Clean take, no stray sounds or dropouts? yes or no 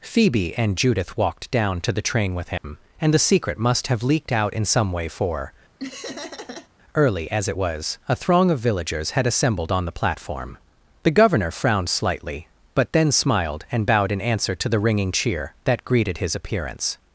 no